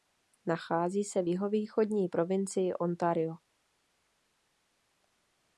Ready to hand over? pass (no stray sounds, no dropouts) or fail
pass